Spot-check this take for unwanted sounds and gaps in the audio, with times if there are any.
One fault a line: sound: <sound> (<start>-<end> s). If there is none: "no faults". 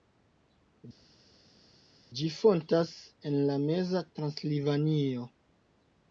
no faults